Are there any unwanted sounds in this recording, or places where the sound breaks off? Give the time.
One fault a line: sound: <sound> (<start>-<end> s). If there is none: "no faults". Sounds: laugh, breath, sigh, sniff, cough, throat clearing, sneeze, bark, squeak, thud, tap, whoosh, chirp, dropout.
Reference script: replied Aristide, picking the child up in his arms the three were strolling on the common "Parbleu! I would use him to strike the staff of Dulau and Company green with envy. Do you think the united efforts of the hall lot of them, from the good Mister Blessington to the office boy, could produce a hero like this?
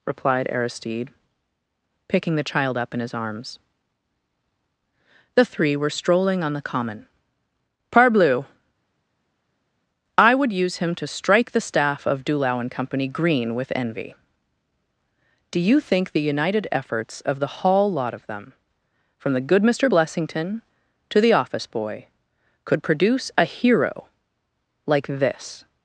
no faults